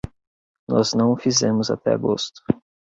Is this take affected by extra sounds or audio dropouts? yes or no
no